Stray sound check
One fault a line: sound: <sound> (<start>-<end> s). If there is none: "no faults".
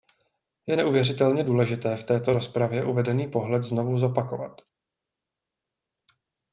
no faults